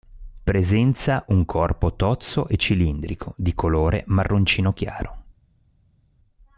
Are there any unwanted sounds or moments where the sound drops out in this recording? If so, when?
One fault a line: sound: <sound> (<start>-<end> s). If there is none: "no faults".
no faults